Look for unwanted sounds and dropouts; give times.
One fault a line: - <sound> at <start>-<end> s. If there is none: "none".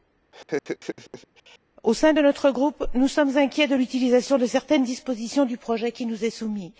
- laugh at 0.3-1.6 s